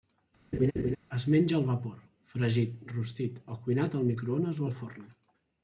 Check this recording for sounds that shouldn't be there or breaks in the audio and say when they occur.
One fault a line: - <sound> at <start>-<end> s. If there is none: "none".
- laugh at 0.5-1.0 s